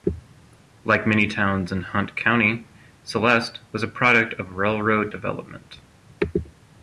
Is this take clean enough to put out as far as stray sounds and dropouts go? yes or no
yes